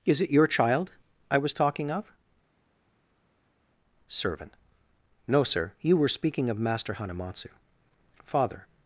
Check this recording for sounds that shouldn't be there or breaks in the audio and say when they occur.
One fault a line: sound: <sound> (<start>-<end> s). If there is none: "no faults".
no faults